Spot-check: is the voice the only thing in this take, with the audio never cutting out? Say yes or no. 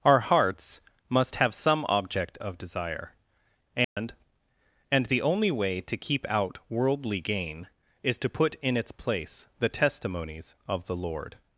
no